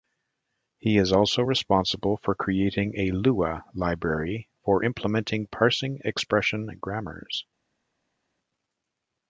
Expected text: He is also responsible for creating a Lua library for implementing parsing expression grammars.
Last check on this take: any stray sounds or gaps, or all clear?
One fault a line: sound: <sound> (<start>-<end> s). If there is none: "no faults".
no faults